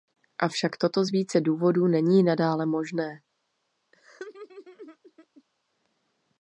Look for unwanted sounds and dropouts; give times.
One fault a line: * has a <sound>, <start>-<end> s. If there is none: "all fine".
* has a laugh, 3.9-5.4 s